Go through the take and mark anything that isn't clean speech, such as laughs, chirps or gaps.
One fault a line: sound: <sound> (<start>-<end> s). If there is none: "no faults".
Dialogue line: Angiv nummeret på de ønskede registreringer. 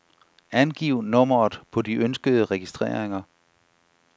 no faults